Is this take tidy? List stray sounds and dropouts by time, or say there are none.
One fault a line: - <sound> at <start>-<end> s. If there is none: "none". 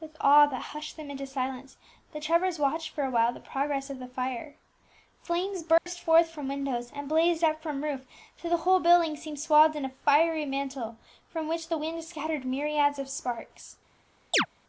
- dropout at 5.8-5.9 s
- chirp at 14.3-14.5 s